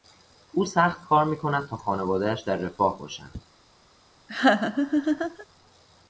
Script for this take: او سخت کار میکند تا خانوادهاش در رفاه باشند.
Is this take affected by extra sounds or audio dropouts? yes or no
yes